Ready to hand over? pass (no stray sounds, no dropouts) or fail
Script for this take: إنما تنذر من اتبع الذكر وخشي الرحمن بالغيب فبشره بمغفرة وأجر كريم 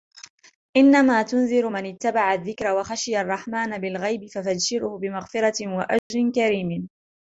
fail